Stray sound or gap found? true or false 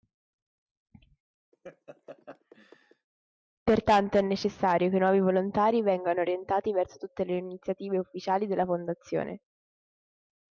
true